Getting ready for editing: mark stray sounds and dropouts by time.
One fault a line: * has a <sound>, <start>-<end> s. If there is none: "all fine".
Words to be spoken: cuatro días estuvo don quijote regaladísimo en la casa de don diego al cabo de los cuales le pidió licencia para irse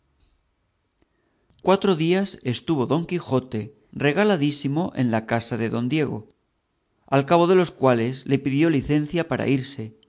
all fine